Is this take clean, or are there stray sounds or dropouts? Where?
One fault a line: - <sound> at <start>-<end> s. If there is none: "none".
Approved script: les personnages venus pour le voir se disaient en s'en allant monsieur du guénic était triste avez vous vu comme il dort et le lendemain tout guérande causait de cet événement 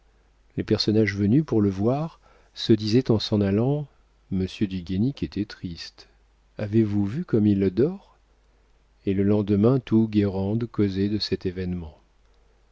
none